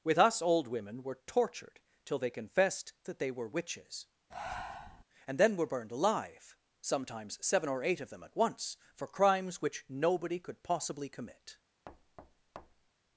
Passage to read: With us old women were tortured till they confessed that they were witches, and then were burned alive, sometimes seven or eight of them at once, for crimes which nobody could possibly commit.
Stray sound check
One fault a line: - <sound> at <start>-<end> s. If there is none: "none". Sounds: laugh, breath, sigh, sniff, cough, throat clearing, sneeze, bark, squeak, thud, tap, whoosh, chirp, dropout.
- breath at 4.3-5.0 s
- thud at 11.9-12.9 s